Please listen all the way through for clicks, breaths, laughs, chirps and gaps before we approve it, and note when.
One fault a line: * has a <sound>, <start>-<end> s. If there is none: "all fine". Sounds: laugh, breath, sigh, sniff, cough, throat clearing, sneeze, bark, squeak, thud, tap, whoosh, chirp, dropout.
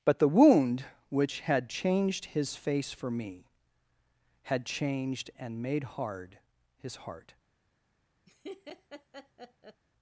* has a laugh, 8.3-9.8 s